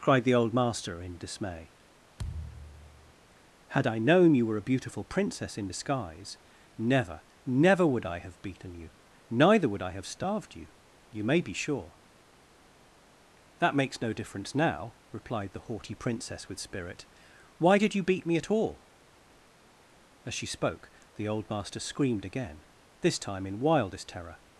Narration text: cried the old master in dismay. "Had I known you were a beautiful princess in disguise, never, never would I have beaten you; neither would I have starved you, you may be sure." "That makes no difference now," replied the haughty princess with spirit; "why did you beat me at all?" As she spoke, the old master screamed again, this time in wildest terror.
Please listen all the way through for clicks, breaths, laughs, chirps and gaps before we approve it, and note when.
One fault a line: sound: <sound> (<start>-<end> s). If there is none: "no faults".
sound: thud (2.2-3.1 s)